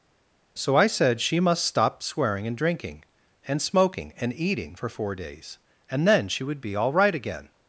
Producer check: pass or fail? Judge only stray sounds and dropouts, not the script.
pass